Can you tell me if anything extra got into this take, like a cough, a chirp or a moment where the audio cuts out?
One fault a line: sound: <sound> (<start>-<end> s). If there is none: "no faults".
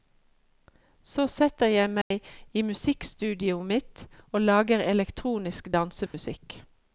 sound: dropout (2.0-2.1 s)
sound: dropout (6.1-6.1 s)